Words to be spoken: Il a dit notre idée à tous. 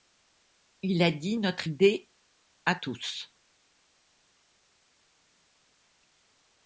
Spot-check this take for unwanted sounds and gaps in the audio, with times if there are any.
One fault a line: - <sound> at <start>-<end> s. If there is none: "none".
none